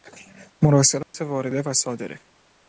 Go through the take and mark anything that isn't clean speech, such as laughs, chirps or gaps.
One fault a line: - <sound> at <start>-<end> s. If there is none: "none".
- dropout at 1.0-1.1 s